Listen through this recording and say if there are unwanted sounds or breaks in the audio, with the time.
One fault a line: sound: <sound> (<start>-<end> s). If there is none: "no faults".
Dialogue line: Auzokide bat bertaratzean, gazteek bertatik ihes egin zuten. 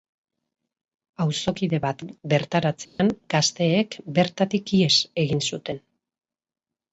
sound: dropout (2.8-3.0 s)